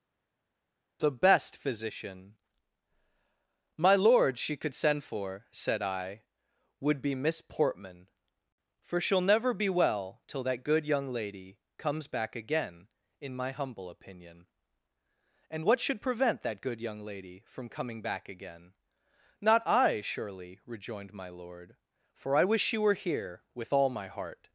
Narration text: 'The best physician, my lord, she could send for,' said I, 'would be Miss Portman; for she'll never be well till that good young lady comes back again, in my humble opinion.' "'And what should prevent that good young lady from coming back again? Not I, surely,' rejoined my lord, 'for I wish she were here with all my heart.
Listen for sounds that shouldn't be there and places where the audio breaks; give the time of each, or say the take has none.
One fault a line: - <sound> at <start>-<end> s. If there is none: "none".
none